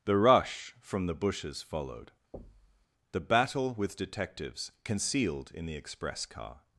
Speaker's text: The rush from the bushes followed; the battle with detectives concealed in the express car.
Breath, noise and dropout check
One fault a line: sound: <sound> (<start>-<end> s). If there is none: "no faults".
sound: thud (2.3-2.9 s)